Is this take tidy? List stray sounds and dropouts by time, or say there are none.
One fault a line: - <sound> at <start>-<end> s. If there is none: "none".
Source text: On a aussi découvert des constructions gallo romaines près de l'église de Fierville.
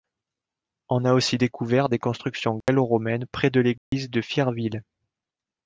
- dropout at 2.6-2.7 s
- dropout at 3.8-3.9 s